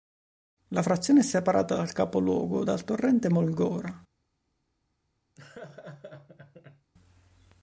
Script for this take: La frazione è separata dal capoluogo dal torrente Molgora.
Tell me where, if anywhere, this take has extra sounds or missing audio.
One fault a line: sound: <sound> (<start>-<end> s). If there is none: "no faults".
sound: laugh (5.4-6.9 s)